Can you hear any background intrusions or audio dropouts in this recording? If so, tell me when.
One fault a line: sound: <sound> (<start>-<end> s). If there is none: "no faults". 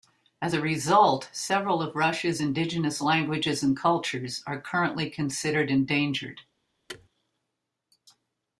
sound: thud (6.9-7.1 s)